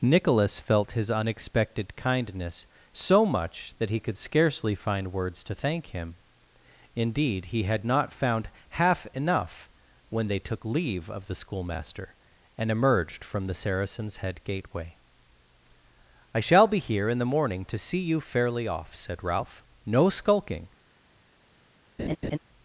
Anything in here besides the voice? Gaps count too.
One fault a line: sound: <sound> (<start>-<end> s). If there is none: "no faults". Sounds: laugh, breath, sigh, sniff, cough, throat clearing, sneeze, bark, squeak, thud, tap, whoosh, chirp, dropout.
sound: laugh (22.0-22.4 s)